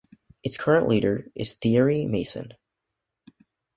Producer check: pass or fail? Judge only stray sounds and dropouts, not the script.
pass